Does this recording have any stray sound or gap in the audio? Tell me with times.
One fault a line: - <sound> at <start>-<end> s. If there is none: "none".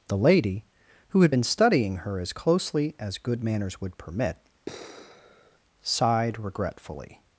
- sigh at 4.7-5.6 s